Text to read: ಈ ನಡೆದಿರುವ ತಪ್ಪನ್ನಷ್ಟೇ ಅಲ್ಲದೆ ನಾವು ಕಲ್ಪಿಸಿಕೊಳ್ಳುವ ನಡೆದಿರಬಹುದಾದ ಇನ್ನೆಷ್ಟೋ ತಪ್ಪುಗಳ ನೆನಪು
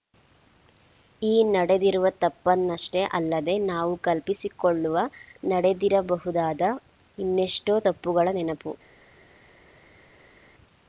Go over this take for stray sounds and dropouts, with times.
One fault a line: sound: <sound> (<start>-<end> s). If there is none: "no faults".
no faults